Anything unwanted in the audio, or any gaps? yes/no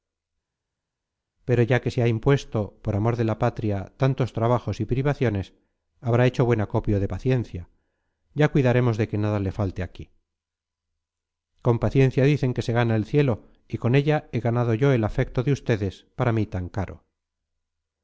no